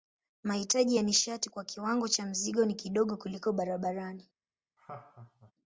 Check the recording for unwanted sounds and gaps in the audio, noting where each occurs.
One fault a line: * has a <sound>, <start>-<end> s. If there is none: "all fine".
* has a laugh, 4.8-5.5 s